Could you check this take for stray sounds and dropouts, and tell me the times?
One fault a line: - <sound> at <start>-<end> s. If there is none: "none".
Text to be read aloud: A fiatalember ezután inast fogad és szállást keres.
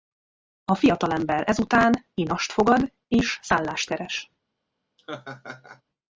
- laugh at 5.0-5.8 s